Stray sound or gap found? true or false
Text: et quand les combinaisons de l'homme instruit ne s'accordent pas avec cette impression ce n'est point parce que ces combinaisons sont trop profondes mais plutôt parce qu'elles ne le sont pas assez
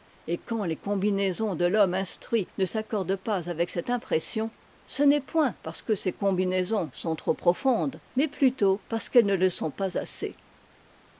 false